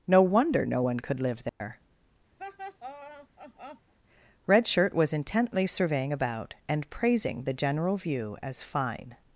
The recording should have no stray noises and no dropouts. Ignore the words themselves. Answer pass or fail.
fail